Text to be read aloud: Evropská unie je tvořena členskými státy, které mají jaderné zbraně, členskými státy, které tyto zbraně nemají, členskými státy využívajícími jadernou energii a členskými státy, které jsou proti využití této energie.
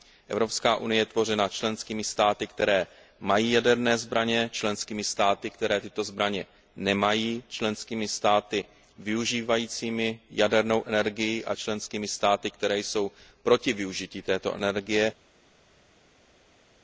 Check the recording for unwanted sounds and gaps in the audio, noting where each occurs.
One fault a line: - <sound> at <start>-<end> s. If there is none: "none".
none